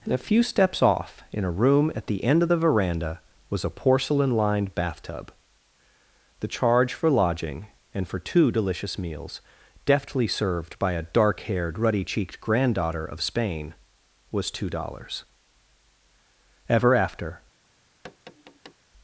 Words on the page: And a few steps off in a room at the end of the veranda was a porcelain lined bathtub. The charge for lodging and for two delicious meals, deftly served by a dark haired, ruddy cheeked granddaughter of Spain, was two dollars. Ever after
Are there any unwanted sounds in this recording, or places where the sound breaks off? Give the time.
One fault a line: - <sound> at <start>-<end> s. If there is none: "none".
- tap at 18.0-18.7 s